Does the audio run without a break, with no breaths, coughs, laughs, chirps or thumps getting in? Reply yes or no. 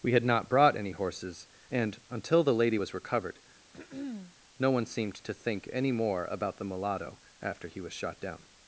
no